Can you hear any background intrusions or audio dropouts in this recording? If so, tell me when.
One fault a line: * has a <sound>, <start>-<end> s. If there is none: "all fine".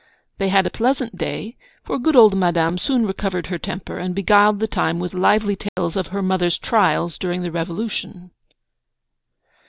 * has a dropout, 5.7-5.8 s